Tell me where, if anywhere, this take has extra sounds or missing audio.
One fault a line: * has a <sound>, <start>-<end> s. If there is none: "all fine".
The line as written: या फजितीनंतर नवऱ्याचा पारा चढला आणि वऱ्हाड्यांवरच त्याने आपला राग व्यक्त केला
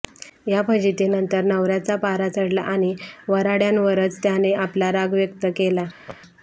* has a laugh, 6.1-6.2 s